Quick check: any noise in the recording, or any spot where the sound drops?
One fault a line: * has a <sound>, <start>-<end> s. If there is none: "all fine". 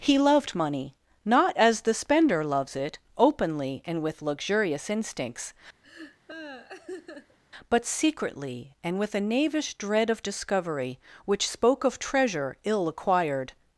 * has a laugh, 5.8-7.4 s